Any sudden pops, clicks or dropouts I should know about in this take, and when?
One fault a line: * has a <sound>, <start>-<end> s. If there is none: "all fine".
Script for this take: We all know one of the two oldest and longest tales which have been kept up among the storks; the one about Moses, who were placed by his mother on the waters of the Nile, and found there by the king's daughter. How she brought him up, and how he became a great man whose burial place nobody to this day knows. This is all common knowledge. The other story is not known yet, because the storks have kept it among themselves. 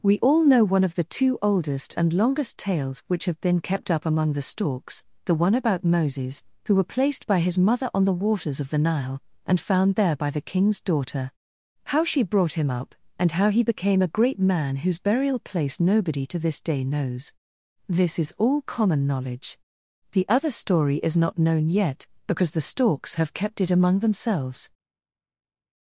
all fine